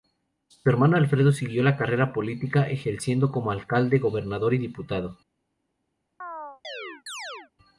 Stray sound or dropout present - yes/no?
yes